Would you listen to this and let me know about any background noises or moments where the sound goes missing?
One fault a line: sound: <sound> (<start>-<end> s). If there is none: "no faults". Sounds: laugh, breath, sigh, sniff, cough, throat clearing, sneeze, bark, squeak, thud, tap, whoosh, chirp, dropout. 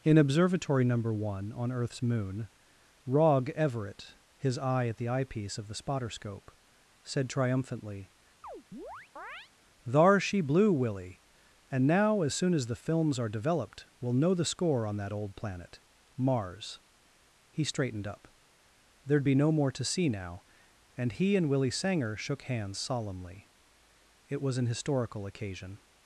sound: chirp (8.4-9.5 s)